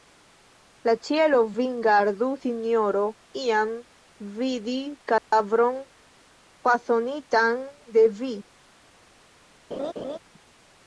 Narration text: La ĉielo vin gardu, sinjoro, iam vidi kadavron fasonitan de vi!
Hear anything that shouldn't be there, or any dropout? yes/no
yes